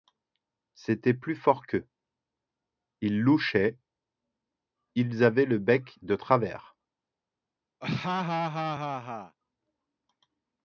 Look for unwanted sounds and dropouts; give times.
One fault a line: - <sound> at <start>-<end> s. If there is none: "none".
- laugh at 7.8-9.4 s